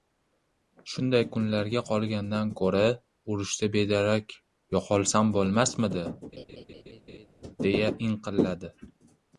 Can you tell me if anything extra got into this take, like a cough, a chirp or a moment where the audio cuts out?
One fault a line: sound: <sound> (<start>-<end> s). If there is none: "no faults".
sound: laugh (6.3-7.3 s)